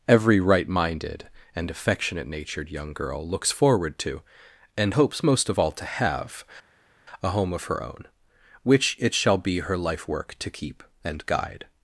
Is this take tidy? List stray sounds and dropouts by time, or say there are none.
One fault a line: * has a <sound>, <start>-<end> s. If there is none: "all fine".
all fine